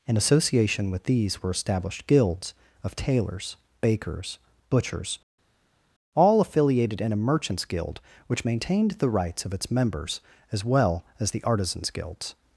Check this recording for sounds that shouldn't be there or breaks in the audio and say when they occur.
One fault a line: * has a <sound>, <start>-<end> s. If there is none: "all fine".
all fine